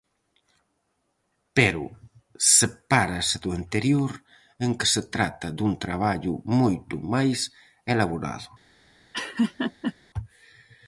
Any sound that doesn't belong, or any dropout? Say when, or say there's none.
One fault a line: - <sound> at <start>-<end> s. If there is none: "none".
- laugh at 9.1-9.9 s